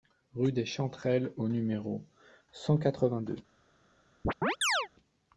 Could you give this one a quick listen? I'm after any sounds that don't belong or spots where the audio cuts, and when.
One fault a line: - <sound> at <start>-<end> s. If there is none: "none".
- chirp at 4.2-4.9 s